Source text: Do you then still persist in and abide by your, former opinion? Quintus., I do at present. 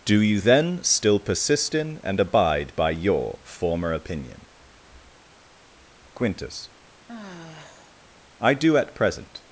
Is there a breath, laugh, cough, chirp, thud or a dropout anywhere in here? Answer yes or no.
yes